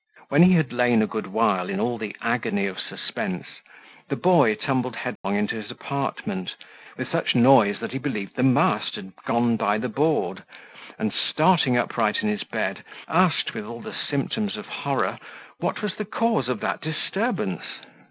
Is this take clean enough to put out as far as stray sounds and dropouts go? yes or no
no